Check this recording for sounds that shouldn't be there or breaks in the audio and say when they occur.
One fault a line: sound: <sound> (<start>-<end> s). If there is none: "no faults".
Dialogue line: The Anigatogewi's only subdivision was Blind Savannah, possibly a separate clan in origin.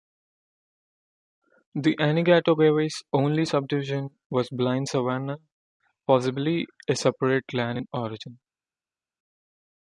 no faults